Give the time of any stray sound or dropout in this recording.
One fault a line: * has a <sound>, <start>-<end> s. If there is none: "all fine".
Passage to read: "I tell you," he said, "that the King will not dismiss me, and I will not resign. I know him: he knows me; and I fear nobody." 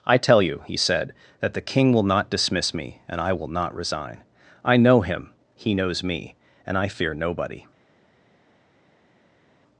all fine